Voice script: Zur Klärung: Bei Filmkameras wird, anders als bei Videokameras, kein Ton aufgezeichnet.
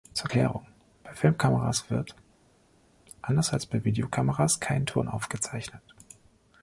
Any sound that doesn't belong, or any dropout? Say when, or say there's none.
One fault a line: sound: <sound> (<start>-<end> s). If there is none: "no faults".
no faults